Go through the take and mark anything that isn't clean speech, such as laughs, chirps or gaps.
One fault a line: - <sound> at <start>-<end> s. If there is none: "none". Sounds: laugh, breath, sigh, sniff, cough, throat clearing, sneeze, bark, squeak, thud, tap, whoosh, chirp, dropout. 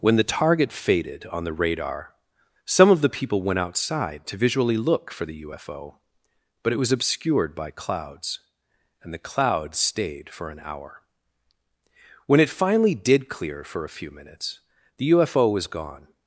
none